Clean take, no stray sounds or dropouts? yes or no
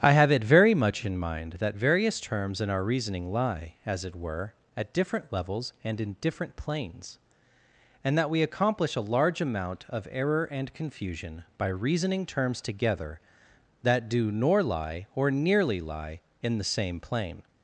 yes